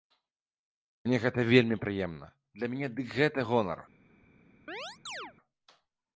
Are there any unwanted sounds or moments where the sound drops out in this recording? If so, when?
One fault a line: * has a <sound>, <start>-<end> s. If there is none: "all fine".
* has a chirp, 4.7-5.3 s